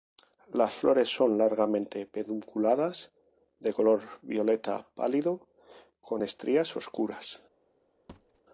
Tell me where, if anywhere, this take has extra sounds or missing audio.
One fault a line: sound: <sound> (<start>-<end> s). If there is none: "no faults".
sound: thud (8.1-8.4 s)